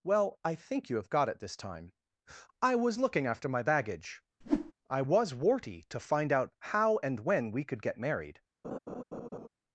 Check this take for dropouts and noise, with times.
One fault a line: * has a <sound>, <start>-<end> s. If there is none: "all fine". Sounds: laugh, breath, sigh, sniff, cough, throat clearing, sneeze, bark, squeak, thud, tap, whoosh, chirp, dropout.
* has a whoosh, 4.4-4.7 s
* has a laugh, 8.6-9.5 s